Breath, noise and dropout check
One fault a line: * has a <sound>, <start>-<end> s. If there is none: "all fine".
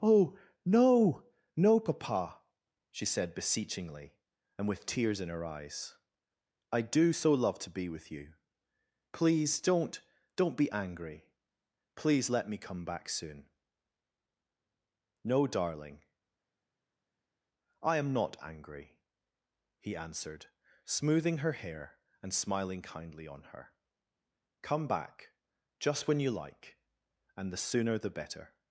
all fine